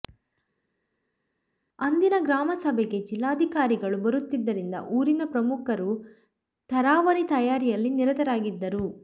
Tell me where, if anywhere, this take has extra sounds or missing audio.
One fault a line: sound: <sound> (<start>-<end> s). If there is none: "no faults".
no faults